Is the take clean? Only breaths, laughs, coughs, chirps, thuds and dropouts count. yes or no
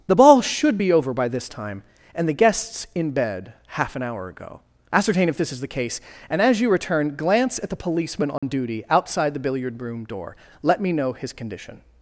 no